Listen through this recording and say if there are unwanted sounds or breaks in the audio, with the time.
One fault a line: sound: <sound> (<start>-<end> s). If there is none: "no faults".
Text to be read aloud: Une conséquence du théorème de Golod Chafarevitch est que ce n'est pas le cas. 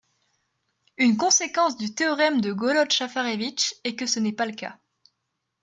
no faults